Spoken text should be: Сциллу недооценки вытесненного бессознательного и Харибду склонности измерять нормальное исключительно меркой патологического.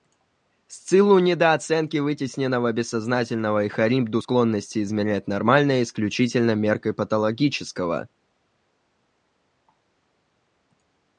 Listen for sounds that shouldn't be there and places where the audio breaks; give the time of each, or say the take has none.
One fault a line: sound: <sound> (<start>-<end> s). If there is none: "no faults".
no faults